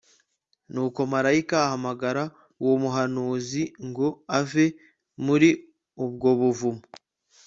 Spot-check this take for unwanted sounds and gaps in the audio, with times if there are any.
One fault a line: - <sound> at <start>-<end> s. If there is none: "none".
none